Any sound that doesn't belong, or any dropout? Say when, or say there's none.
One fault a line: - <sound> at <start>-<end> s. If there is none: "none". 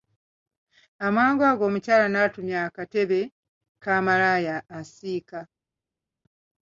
none